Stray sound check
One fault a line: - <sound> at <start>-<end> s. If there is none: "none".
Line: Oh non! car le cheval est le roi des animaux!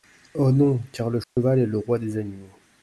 - dropout at 1.2-1.4 s